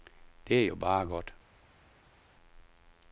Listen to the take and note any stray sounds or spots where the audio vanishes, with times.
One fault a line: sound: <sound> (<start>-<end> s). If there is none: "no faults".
no faults